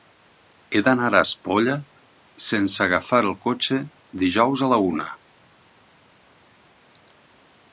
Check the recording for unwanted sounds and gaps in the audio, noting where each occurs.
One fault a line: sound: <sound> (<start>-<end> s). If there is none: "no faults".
no faults